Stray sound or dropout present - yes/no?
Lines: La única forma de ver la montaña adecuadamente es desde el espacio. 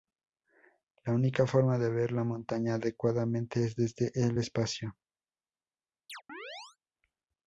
yes